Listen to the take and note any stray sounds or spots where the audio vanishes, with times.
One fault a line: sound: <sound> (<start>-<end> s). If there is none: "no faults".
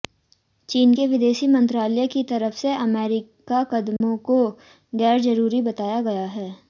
sound: dropout (4.0-4.0 s)